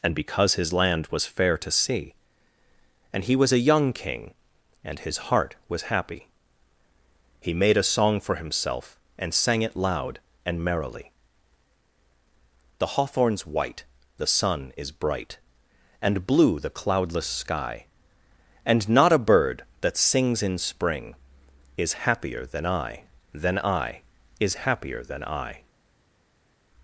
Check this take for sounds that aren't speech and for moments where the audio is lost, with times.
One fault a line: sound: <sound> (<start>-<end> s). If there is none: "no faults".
no faults